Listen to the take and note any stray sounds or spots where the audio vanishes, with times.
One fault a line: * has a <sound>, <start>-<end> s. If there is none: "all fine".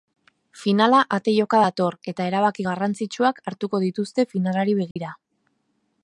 * has a dropout, 4.9-5.0 s